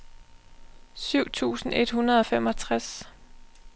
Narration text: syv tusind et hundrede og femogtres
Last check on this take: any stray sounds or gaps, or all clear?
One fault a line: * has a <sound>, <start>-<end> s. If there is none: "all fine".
all fine